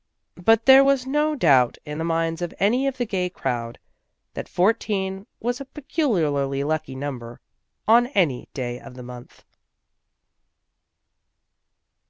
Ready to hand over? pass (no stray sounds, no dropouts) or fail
pass